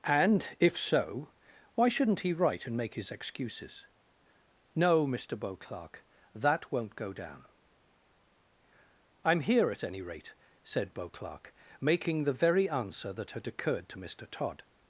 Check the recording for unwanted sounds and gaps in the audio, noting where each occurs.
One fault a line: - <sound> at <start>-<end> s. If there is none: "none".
none